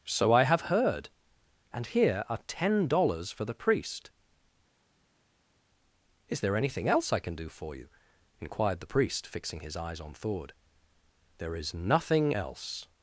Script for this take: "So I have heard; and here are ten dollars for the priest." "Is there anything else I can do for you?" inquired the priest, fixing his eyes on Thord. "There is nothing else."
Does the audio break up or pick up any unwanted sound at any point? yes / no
no